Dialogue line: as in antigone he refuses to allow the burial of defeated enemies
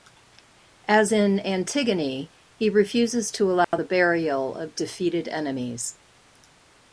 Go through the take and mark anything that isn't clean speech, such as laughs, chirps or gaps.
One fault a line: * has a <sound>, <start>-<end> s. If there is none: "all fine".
* has a dropout, 3.6-3.7 s